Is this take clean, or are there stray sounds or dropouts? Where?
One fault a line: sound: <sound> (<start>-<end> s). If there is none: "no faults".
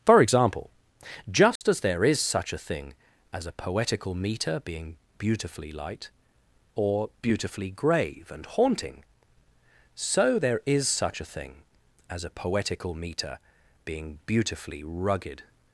sound: dropout (1.6-1.6 s)